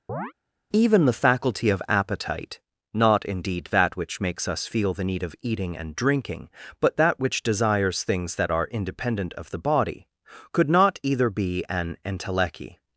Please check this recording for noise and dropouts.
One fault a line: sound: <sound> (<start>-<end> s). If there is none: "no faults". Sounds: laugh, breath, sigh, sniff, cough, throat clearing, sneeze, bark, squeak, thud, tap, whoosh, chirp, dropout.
sound: chirp (0.1-0.3 s)